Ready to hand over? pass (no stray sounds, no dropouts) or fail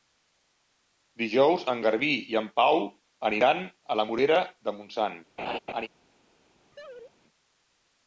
fail